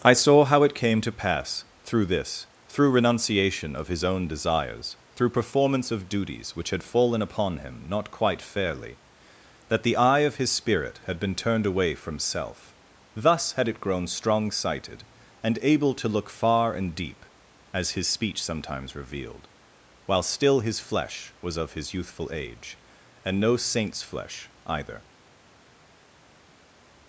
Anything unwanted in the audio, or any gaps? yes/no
no